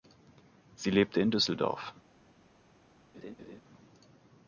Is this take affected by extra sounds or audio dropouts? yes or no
yes